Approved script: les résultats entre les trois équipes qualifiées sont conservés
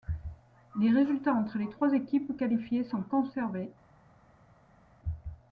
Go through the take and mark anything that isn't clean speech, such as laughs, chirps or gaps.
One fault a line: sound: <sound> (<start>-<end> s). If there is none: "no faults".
no faults